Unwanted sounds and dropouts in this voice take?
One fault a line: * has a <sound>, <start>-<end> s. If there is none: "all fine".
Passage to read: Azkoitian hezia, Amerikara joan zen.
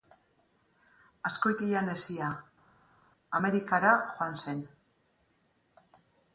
all fine